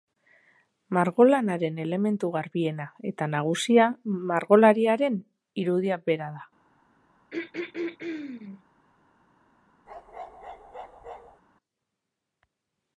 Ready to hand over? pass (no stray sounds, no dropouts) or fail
fail